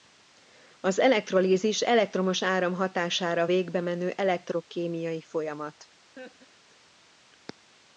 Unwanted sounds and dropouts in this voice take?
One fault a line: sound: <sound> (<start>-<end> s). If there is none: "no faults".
sound: laugh (6.2-6.8 s)